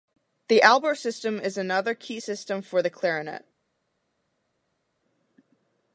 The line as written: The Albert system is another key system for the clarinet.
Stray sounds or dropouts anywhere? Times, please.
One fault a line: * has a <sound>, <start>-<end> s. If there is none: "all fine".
all fine